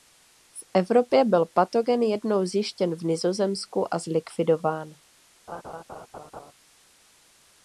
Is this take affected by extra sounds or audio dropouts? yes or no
yes